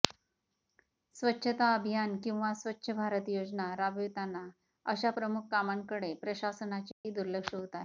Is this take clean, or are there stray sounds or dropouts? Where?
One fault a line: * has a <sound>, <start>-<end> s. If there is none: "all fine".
* has a dropout, 6.9-7.0 s